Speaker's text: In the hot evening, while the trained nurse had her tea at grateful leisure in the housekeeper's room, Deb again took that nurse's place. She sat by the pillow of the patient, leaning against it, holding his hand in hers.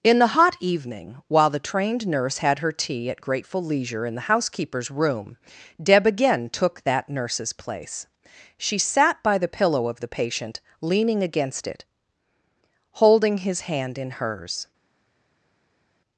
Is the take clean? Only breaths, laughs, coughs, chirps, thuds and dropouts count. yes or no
yes